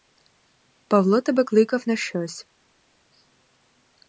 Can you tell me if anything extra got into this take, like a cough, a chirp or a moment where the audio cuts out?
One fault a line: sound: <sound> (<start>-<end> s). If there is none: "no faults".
no faults